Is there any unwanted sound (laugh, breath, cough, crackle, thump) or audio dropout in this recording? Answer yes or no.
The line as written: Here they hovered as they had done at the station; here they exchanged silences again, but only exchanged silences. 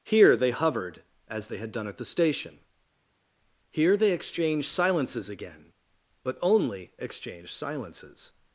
no